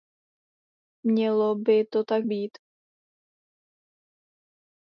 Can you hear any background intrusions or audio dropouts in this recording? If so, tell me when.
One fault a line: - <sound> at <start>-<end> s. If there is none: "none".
none